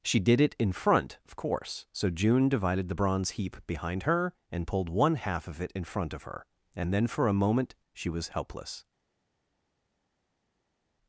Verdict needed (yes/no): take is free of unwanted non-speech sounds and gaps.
yes